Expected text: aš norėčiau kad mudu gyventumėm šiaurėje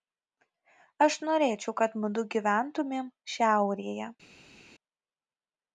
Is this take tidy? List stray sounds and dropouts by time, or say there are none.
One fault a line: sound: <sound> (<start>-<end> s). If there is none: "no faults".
no faults